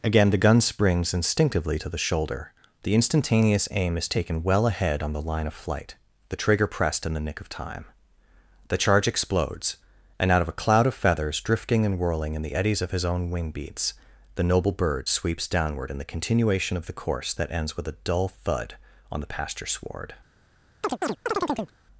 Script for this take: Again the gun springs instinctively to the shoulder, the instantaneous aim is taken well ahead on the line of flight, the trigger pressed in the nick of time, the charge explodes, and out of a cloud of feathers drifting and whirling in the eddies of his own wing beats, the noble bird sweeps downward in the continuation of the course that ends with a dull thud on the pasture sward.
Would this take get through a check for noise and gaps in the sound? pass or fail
fail